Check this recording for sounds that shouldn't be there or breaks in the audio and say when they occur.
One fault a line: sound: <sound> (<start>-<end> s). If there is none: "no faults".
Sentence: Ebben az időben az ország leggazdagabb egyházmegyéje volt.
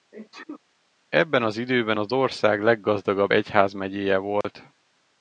sound: sneeze (0.1-0.6 s)
sound: dropout (4.4-4.4 s)